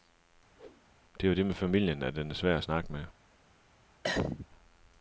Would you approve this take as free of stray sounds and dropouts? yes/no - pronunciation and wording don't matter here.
no